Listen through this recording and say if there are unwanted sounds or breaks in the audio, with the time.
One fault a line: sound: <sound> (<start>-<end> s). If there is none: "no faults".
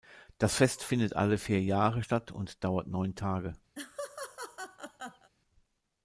sound: laugh (3.7-5.3 s)